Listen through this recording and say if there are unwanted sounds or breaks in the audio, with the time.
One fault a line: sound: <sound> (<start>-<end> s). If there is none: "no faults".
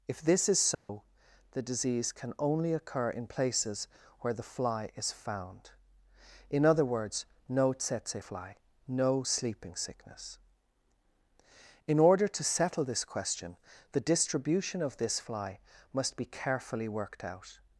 sound: dropout (0.7-0.9 s)